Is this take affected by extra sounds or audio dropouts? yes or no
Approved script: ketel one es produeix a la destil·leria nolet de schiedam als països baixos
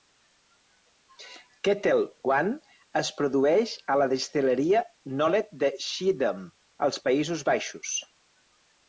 no